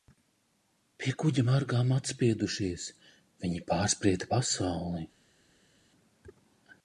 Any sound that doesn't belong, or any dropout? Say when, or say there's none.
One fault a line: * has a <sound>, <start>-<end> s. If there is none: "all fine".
all fine